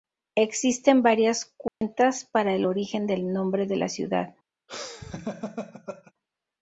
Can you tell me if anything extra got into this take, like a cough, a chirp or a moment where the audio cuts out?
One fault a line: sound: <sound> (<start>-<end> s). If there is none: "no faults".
sound: dropout (1.7-1.8 s)
sound: laugh (4.7-6.1 s)